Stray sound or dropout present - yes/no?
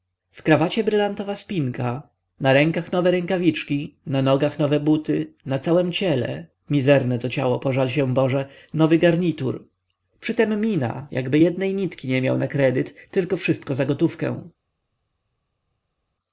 no